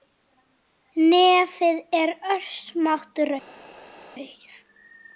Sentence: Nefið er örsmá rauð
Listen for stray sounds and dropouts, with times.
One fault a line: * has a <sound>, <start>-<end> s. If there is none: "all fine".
all fine